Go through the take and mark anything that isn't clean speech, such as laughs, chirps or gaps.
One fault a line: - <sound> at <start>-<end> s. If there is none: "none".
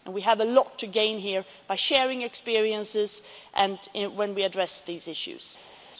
none